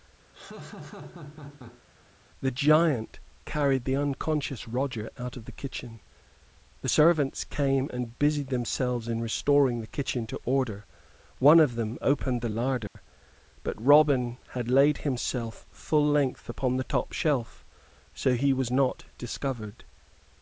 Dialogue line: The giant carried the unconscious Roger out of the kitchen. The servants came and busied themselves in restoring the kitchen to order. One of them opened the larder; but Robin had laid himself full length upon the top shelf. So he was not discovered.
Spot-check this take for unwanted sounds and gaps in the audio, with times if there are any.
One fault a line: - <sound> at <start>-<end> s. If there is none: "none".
- laugh at 0.3-1.8 s
- dropout at 12.9-13.0 s